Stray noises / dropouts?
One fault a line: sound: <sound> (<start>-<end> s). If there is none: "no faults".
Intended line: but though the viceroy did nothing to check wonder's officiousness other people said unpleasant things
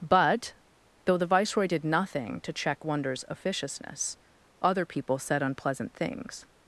no faults